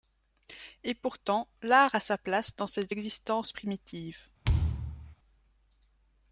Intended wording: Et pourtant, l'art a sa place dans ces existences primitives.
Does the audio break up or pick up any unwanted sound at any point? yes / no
yes